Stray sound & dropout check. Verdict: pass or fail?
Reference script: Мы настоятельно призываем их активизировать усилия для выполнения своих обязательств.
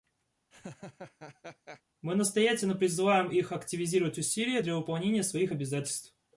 fail